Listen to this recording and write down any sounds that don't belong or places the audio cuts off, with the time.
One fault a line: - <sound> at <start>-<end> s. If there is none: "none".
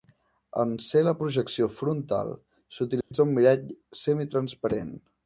- dropout at 3.0-3.1 s